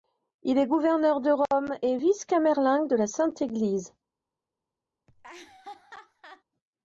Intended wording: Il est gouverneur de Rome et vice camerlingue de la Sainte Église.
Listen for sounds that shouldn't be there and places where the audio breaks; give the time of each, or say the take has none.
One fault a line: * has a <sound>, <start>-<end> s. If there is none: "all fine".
* has a laugh, 5.1-6.4 s